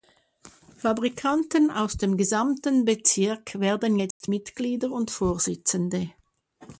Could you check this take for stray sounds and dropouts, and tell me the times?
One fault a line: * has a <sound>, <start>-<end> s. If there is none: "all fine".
* has a dropout, 4.1-4.2 s